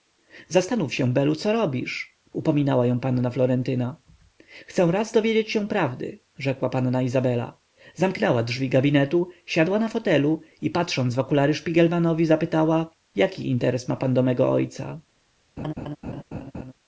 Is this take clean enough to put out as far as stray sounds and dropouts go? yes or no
no